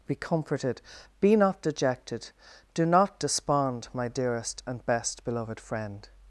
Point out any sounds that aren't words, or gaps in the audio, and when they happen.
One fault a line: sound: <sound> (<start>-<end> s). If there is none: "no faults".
no faults